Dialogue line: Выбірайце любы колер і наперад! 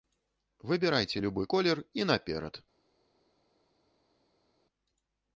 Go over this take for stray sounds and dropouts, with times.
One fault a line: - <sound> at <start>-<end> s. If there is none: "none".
none